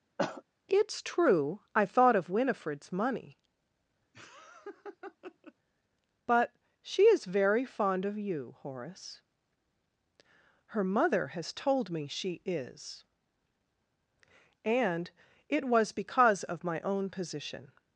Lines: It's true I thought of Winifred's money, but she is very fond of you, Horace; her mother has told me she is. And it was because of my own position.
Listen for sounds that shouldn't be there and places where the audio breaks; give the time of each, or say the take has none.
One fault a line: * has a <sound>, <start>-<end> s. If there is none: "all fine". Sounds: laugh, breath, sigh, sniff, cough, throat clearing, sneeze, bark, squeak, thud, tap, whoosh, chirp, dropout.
* has a cough, 0.2-0.4 s
* has a laugh, 4.1-5.5 s